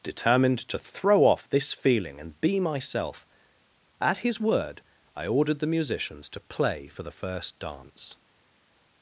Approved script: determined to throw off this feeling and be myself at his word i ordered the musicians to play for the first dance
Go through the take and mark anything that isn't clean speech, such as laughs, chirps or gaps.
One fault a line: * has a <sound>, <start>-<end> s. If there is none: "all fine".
all fine